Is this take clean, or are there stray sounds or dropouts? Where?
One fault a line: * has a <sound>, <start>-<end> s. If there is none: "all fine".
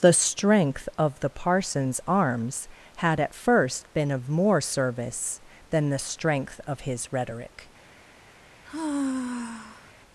* has a sigh, 8.6-9.9 s